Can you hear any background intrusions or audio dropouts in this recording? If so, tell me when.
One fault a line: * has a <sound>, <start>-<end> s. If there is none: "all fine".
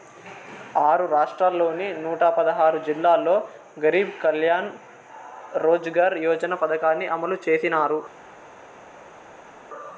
all fine